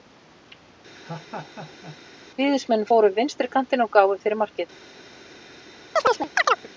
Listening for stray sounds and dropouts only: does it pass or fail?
fail